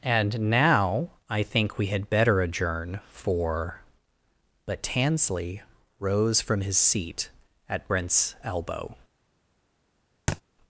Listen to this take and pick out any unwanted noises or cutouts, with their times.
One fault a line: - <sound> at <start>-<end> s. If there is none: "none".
- thud at 10.3-10.4 s